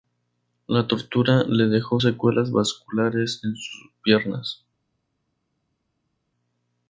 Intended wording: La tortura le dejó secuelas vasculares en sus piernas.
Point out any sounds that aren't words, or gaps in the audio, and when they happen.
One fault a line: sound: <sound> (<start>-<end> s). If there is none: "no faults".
no faults